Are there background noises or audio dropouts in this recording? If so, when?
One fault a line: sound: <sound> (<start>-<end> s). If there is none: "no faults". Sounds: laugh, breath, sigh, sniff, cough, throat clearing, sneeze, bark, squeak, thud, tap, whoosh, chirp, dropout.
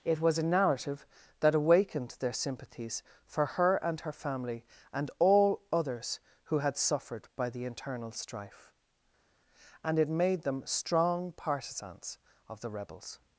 no faults